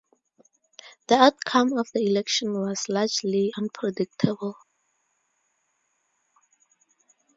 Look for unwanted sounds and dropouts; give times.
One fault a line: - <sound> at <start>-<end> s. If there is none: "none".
none